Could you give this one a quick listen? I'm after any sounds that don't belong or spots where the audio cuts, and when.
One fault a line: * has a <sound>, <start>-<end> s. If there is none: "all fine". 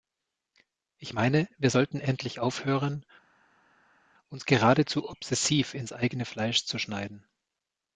all fine